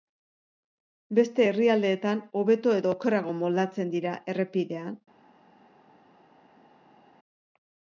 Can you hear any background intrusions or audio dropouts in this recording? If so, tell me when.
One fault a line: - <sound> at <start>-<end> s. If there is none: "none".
none